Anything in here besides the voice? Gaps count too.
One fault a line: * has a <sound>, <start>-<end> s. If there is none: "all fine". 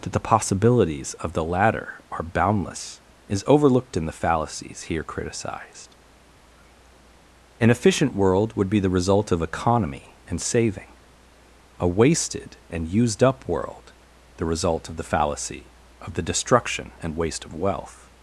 all fine